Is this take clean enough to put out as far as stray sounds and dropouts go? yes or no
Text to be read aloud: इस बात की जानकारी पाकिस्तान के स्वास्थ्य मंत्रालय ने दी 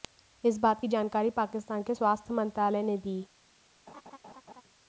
no